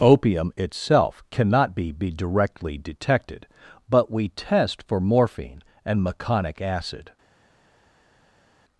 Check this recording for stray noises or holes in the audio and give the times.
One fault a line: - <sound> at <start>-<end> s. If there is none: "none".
none